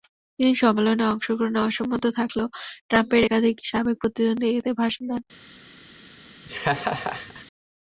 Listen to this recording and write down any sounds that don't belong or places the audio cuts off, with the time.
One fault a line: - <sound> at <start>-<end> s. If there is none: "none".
- laugh at 6.5-7.5 s